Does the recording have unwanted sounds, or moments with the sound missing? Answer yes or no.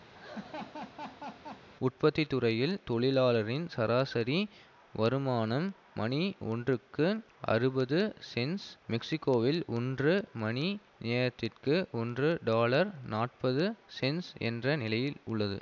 yes